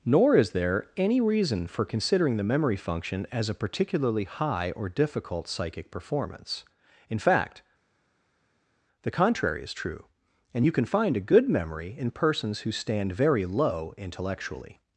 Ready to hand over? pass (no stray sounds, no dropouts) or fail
pass